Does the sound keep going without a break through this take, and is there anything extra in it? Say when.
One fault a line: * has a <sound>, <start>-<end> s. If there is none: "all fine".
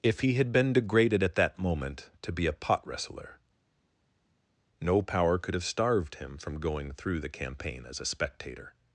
all fine